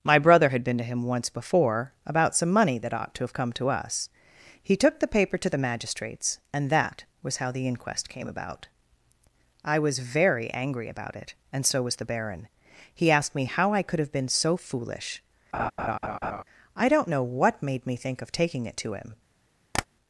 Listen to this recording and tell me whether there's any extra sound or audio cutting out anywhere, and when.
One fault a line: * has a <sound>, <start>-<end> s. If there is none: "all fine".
* has a laugh, 15.5-16.4 s
* has a tap, 19.7-19.9 s